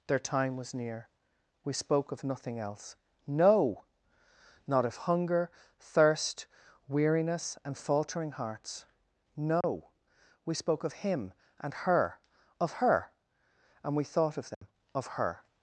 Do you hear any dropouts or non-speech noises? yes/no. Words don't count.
yes